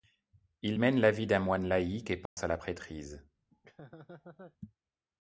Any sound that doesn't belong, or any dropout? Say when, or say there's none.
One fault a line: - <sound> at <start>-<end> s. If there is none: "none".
- dropout at 2.3-2.4 s
- laugh at 3.5-4.6 s